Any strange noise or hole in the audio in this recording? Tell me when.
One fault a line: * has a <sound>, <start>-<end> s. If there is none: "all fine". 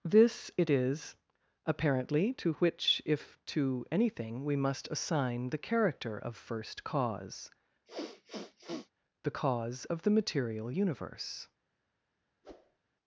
* has a sniff, 7.9-8.9 s
* has a whoosh, 12.4-12.8 s